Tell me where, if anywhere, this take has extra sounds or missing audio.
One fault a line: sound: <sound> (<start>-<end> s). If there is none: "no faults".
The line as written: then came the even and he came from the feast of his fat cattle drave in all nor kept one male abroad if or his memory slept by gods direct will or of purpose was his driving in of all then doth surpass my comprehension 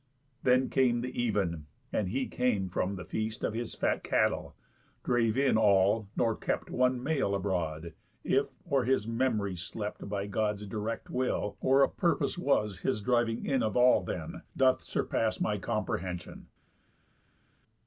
no faults